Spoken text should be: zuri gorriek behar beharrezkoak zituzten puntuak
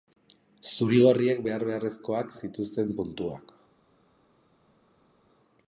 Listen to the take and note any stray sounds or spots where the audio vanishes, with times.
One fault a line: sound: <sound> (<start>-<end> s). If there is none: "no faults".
no faults